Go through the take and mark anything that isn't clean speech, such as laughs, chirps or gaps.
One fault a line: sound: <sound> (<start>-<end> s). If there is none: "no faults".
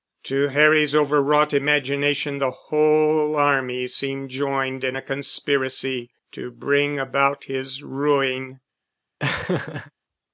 sound: laugh (9.2-9.9 s)